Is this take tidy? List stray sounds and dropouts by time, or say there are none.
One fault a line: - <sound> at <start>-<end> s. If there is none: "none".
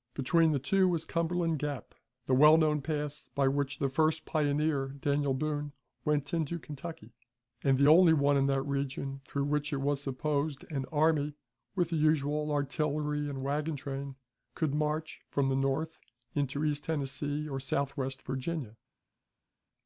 none